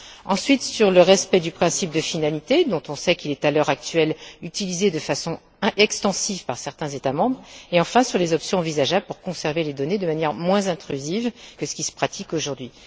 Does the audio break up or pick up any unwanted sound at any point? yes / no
no